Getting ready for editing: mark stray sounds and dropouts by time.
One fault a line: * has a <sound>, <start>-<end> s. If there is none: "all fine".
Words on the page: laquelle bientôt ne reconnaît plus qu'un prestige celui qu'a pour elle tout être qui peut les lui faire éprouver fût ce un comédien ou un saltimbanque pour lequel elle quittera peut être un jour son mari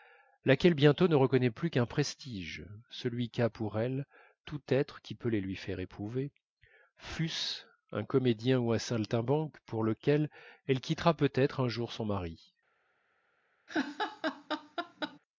* has a laugh, 13.7-15.2 s